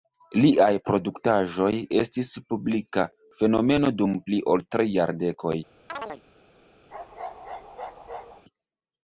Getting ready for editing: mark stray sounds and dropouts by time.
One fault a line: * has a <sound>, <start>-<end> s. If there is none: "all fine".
* has a chirp, 5.9-6.2 s
* has a bark, 6.9-8.4 s